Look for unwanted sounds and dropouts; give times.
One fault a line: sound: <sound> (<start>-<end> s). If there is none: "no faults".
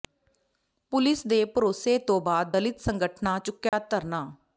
sound: dropout (3.7-3.7 s)